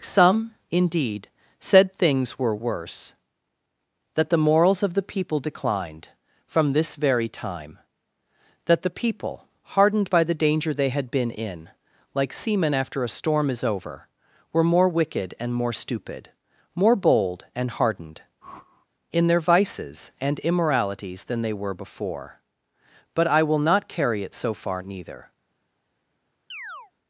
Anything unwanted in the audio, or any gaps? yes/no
yes